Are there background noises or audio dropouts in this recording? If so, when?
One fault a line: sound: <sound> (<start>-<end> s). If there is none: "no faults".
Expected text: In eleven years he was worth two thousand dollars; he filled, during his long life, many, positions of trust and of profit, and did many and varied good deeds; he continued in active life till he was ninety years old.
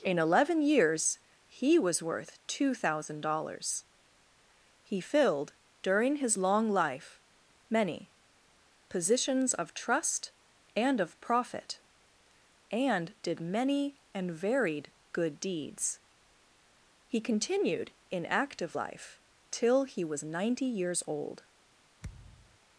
sound: thud (22.0-22.6 s)